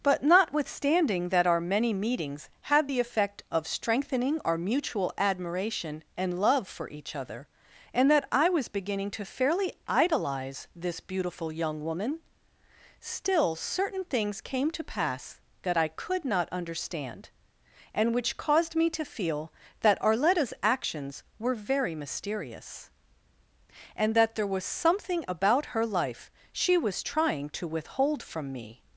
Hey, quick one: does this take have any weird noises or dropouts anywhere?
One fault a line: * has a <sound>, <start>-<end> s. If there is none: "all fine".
all fine